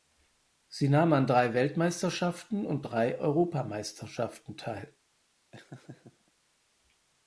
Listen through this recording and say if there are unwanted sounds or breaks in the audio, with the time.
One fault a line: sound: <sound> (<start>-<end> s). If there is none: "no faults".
sound: laugh (5.5-6.3 s)